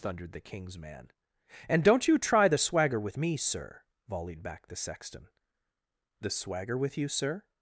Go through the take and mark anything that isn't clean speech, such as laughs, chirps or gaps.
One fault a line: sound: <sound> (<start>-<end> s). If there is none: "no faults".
no faults